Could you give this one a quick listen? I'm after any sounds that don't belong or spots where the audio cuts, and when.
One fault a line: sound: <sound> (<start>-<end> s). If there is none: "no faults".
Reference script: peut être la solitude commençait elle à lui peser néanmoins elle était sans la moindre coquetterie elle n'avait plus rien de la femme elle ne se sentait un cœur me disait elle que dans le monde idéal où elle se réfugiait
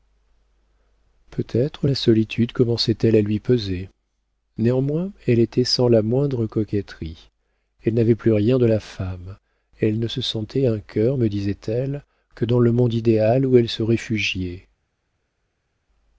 no faults